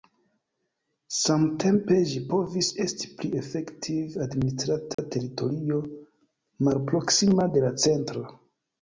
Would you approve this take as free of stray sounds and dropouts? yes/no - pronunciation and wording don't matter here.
no